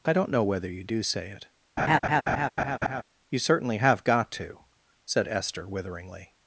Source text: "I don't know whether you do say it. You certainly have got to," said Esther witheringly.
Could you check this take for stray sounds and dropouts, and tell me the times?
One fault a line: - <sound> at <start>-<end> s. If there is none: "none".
- laugh at 1.8-3.0 s